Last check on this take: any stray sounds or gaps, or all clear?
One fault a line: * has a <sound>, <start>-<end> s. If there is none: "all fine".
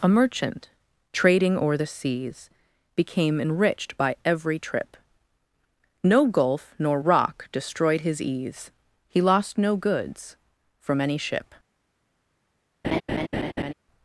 * has a laugh, 12.8-13.7 s